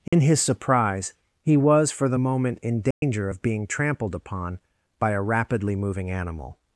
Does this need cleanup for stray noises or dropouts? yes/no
yes